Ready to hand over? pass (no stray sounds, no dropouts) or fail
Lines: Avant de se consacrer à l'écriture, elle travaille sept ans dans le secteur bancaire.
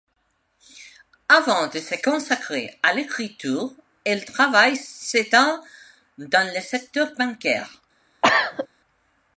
fail